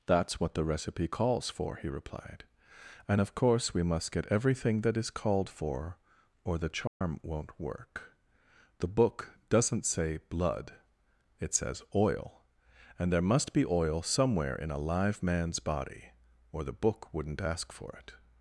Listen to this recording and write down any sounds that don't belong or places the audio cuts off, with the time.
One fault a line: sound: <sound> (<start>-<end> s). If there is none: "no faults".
sound: dropout (6.9-7.0 s)